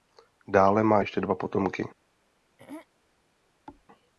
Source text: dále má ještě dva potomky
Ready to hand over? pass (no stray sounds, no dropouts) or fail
fail